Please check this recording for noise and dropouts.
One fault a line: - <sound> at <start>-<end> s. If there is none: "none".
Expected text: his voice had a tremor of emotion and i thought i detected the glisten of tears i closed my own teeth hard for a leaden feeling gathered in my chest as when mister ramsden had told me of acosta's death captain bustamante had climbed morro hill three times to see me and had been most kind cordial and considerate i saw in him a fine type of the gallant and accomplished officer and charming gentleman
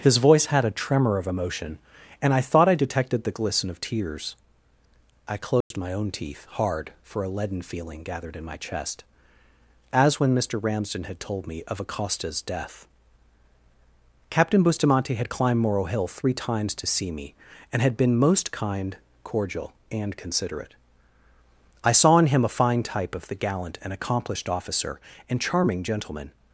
- dropout at 5.6-5.7 s